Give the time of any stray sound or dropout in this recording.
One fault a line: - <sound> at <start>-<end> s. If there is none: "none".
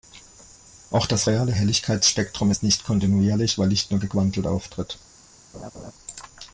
- laugh at 5.5-5.9 s